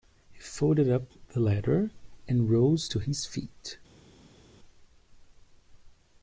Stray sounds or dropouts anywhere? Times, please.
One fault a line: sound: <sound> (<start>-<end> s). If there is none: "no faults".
no faults